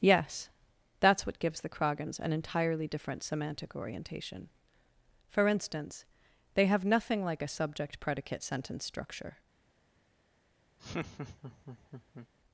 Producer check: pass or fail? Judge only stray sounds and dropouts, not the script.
fail